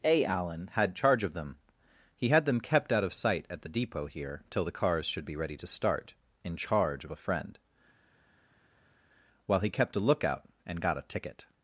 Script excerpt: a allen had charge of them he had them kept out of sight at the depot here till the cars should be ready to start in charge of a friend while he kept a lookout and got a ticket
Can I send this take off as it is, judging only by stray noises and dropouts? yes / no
yes